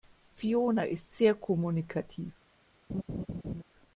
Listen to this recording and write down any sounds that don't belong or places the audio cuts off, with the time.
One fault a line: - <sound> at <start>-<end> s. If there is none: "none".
- laugh at 2.9-3.6 s